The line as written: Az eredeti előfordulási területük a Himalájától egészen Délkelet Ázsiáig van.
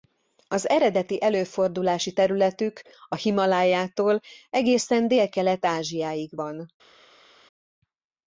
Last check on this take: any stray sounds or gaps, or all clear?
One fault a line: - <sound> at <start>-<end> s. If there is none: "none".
none